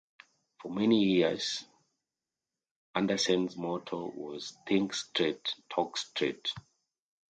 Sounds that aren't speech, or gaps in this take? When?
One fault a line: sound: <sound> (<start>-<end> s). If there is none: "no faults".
no faults